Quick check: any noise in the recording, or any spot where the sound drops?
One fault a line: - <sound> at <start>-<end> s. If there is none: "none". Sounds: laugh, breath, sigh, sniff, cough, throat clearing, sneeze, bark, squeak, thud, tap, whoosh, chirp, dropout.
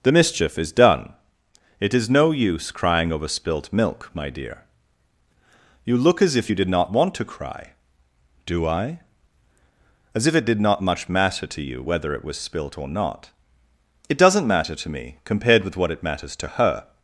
none